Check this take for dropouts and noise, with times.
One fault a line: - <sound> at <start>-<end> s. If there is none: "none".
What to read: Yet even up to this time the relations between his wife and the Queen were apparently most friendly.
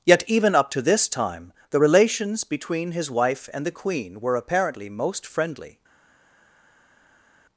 none